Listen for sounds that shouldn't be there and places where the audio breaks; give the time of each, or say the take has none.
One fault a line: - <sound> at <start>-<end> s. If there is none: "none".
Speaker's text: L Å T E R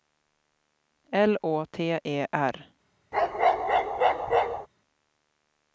- bark at 3.1-4.7 s